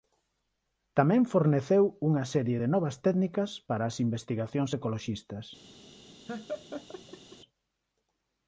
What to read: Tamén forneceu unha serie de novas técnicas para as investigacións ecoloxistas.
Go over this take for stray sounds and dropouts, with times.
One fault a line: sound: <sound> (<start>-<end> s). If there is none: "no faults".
sound: laugh (6.3-7.4 s)